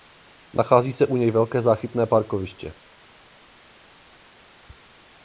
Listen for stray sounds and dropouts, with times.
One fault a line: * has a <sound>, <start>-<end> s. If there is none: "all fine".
all fine